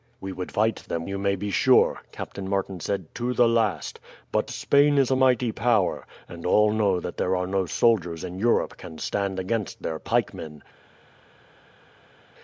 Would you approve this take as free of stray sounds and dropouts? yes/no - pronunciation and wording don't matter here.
yes